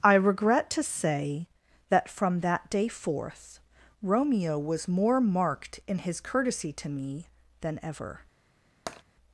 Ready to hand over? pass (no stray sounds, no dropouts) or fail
fail